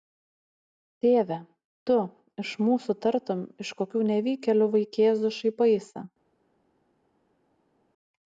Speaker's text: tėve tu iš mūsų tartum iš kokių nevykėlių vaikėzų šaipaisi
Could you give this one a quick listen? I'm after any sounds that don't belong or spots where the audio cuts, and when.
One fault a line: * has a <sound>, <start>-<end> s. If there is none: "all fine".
all fine